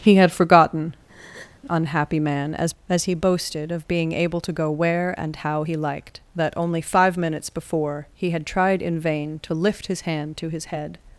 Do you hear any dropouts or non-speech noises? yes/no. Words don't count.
yes